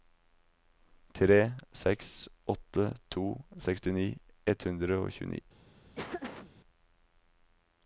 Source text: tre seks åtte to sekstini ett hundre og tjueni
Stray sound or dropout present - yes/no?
yes